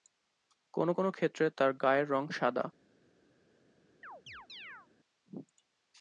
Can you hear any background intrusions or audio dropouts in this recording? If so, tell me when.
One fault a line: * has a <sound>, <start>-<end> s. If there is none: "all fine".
* has a chirp, 4.0-4.9 s